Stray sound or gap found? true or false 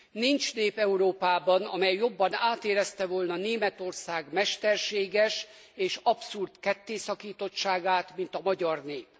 false